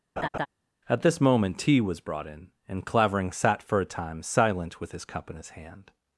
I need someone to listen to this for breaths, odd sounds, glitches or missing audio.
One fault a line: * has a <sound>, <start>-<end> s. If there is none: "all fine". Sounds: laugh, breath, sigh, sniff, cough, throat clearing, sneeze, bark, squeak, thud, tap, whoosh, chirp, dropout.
* has a laugh, 0.2-0.5 s